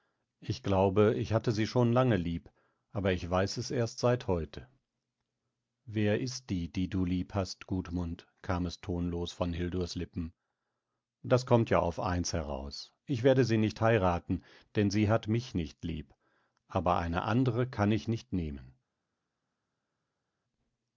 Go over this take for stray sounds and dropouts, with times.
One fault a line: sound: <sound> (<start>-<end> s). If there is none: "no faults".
no faults